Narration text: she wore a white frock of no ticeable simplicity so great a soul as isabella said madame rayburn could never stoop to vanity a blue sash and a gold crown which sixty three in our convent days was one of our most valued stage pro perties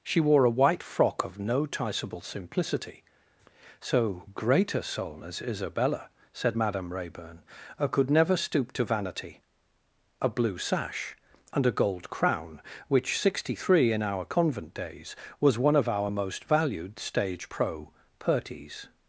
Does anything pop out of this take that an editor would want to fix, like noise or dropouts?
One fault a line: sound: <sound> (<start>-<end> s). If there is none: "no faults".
no faults